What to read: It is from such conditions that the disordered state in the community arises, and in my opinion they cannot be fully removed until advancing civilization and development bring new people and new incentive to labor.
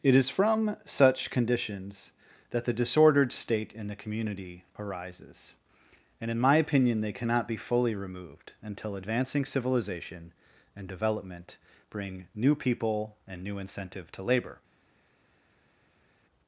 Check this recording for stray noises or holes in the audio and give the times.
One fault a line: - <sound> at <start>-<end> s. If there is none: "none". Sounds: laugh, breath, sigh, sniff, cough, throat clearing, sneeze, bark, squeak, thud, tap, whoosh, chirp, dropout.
none